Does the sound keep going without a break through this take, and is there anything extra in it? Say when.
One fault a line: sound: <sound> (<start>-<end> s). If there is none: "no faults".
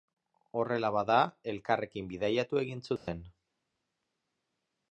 sound: dropout (3.0-3.1 s)